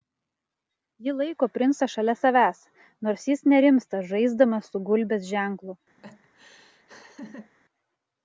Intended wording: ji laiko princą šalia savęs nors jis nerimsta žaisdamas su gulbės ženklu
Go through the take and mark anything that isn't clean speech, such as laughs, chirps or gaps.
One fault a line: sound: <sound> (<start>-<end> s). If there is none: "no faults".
sound: laugh (6.0-7.5 s)